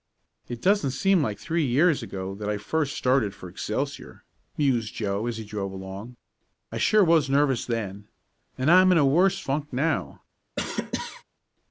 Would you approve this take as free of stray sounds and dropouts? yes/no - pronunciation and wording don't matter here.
no